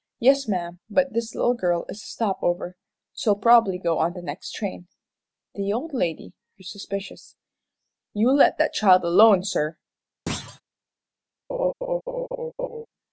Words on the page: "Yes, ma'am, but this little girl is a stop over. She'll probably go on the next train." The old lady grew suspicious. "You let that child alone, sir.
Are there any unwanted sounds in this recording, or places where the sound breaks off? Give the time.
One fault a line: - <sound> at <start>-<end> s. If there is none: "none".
- thud at 10.3-10.6 s
- laugh at 11.5-12.9 s